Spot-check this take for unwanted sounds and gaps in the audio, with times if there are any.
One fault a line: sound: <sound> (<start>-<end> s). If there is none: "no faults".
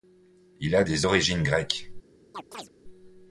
sound: chirp (2.3-2.7 s)